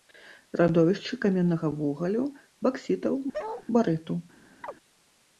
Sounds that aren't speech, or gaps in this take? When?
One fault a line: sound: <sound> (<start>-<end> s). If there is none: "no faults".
sound: bark (3.3-3.7 s)
sound: chirp (4.6-4.7 s)